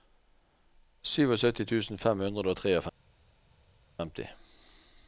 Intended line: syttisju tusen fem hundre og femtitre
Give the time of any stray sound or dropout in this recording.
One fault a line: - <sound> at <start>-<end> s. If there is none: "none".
none